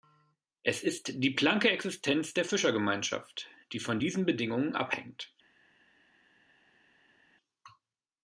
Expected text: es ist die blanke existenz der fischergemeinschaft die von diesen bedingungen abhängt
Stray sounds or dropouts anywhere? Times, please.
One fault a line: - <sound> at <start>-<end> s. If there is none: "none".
none